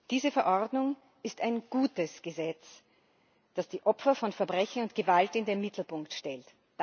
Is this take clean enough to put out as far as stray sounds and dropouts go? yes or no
yes